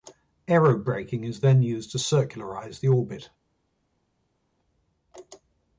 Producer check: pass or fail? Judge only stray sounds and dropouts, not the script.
pass